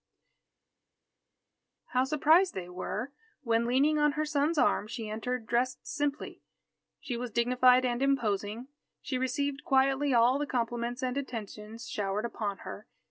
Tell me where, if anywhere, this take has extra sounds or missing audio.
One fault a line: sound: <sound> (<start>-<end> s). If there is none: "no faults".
no faults